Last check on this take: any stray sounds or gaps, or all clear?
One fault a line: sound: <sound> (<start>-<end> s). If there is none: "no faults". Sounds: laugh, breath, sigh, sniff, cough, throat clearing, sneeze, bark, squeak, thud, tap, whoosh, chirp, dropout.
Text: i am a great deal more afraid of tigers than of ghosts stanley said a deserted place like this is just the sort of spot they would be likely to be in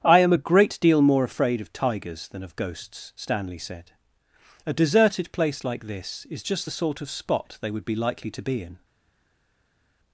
no faults